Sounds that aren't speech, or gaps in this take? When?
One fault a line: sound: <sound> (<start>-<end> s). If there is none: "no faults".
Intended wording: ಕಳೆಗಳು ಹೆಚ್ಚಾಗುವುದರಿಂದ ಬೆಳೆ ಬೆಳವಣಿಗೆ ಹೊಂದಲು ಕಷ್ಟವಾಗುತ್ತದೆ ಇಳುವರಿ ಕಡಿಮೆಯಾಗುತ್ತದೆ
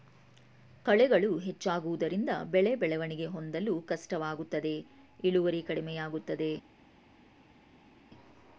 no faults